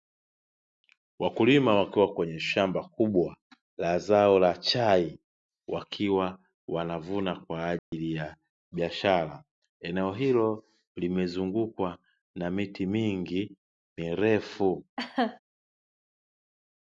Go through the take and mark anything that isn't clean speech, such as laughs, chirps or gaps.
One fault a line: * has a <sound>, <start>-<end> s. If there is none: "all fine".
* has a dropout, 7.8-7.9 s
* has a laugh, 15.0-15.4 s